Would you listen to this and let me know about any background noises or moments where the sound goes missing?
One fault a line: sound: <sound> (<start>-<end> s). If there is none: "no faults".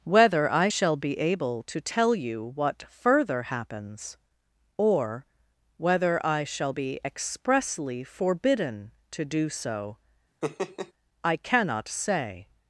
sound: laugh (10.4-10.9 s)